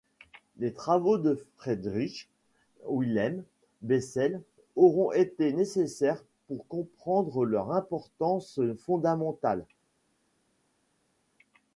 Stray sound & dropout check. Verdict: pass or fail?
pass